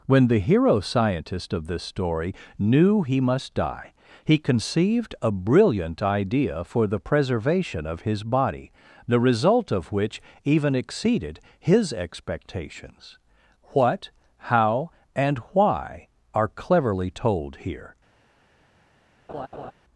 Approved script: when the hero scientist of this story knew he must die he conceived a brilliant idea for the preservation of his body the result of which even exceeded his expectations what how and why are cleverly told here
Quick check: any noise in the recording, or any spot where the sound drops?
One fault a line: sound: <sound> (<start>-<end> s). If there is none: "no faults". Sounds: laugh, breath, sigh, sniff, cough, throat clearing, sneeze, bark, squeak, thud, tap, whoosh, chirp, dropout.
sound: laugh (19.3-19.7 s)